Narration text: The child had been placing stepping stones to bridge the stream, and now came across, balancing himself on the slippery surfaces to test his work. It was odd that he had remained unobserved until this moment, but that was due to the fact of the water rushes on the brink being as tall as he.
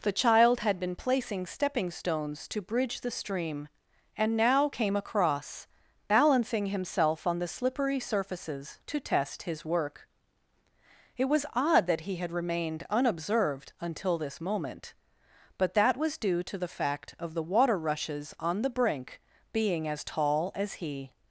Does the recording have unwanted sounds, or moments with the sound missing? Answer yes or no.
no